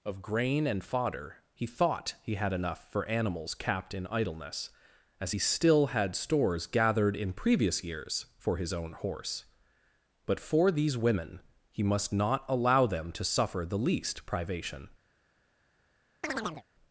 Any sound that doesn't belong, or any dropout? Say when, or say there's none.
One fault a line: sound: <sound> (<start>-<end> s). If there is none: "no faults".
sound: chirp (16.2-16.6 s)